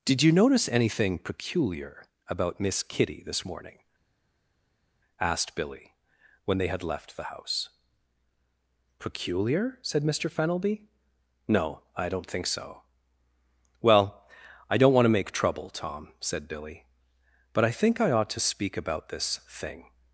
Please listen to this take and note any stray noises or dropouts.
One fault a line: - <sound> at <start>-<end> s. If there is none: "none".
none